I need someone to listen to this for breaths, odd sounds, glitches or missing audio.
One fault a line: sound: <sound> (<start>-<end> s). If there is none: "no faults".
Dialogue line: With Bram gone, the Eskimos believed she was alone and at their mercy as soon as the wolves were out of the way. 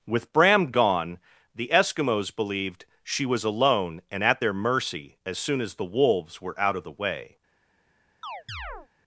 sound: chirp (8.2-8.9 s)